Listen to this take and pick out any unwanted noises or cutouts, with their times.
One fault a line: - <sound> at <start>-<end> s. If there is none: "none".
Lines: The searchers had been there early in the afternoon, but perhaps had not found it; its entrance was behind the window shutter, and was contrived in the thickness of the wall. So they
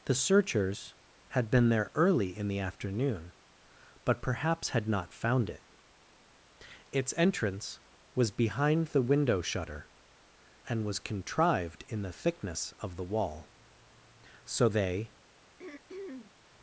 - throat clearing at 15.6-16.4 s